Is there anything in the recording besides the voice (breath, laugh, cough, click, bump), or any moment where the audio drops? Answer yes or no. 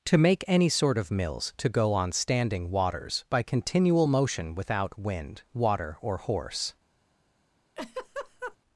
yes